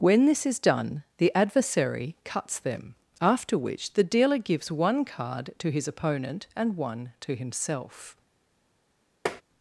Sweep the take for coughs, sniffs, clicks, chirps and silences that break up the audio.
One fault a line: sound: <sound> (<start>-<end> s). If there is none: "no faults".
sound: tap (9.3-9.4 s)